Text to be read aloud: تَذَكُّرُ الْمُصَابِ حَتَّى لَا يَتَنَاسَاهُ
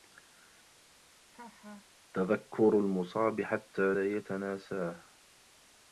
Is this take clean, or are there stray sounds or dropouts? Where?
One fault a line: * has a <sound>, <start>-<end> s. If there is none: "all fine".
* has a laugh, 1.3-1.9 s